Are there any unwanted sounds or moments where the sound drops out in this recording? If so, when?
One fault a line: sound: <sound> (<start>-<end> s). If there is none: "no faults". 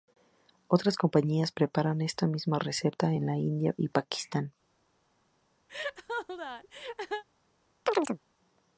sound: laugh (5.7-7.2 s)
sound: chirp (7.9-8.2 s)